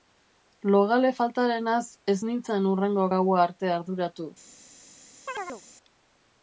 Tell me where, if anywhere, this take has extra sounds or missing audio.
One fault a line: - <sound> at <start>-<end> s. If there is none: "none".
- chirp at 5.3-5.6 s